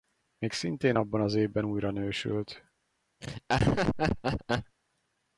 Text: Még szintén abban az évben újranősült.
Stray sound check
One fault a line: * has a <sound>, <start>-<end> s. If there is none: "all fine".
* has a laugh, 3.2-4.8 s